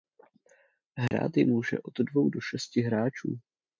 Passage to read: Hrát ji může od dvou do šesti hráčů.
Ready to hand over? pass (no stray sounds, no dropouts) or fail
fail